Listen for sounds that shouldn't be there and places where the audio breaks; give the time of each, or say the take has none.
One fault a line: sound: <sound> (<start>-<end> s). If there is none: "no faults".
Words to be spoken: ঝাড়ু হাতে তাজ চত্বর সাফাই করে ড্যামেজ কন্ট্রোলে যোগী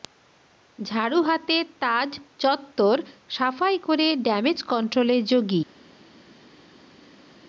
no faults